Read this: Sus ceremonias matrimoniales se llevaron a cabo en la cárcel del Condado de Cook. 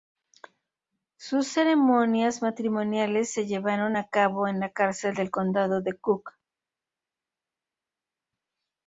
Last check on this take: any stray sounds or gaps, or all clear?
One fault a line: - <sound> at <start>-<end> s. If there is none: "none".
none